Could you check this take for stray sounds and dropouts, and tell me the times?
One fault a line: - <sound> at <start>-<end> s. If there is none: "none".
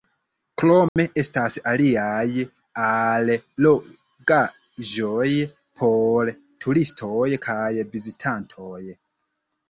- dropout at 0.9-1.0 s